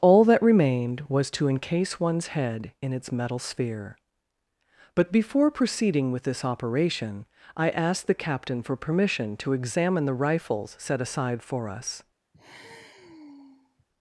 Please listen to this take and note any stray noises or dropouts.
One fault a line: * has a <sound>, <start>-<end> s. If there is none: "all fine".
* has a sigh, 12.3-13.8 s